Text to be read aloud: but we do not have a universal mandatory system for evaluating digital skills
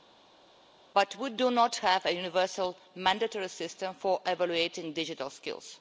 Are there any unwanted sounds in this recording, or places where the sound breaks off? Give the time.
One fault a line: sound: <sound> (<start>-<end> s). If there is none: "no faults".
no faults